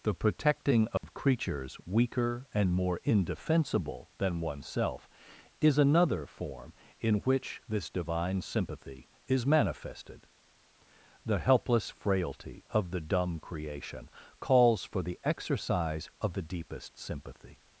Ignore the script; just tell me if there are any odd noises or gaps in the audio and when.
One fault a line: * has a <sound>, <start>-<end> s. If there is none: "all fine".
* has a dropout, 1.0-1.0 s